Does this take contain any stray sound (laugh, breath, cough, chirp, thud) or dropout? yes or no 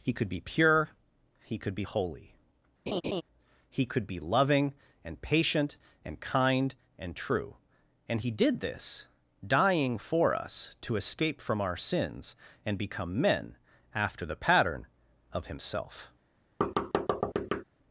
yes